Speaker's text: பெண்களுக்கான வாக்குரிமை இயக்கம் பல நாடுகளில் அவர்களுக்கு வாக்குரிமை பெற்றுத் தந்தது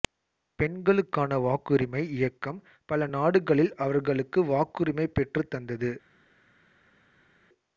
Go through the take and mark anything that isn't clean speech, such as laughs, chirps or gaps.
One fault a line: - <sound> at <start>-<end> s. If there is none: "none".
none